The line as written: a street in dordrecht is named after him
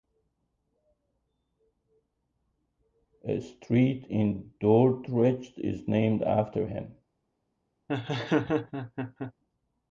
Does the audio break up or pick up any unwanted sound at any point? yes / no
yes